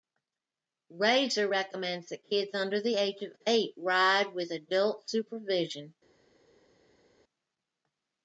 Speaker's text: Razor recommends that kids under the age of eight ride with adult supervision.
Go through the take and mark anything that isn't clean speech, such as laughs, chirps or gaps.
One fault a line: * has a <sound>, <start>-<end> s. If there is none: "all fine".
all fine